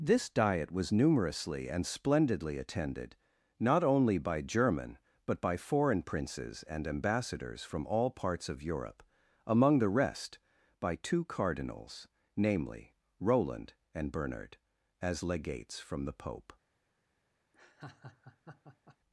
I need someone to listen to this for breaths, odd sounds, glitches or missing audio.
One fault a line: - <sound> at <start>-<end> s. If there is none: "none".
- laugh at 17.5-19.0 s